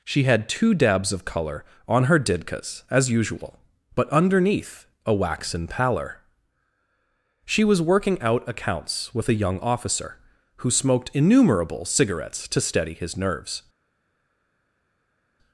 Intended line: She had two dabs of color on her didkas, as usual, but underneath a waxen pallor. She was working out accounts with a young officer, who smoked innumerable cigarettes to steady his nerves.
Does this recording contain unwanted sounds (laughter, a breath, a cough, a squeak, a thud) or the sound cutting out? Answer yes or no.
no